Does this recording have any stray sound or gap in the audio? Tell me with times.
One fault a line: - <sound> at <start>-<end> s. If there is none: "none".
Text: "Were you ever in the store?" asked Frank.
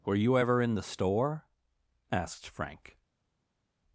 none